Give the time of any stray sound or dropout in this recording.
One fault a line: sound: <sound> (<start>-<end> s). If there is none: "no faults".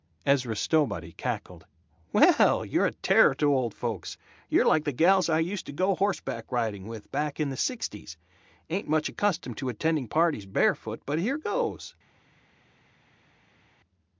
no faults